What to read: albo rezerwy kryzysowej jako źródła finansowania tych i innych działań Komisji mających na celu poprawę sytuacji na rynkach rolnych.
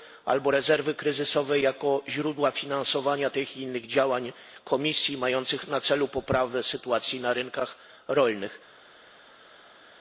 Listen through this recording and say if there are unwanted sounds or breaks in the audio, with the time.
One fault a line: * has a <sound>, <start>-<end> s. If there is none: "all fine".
all fine